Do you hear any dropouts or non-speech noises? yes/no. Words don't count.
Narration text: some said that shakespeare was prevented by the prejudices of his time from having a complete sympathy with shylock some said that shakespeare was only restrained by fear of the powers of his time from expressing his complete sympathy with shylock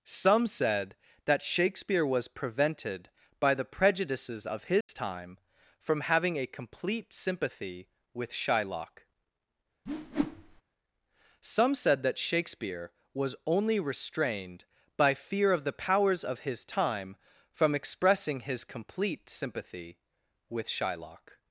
yes